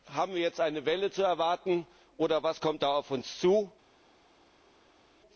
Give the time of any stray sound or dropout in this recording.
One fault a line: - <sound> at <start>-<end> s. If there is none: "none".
none